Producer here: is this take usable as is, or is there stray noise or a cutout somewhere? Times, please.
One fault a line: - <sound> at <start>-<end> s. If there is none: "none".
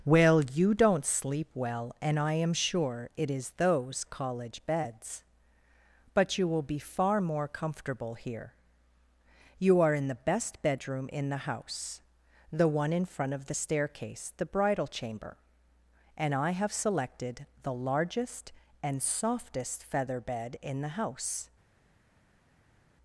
none